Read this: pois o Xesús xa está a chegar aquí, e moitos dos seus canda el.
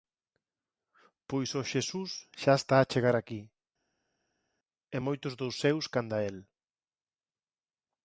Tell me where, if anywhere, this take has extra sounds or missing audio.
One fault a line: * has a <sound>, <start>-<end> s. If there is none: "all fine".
all fine